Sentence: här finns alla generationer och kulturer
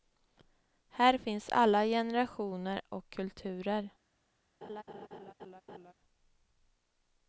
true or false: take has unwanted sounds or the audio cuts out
true